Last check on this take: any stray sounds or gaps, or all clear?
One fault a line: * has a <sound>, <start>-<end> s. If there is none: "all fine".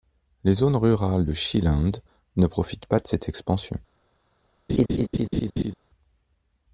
* has a laugh, 4.7-5.7 s